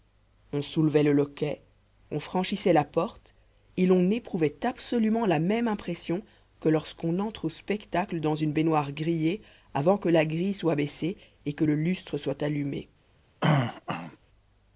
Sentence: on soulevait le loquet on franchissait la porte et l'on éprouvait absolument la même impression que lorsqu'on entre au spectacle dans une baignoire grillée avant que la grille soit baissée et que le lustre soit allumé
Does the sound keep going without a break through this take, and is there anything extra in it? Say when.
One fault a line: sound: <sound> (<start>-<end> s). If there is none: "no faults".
sound: throat clearing (13.4-14.2 s)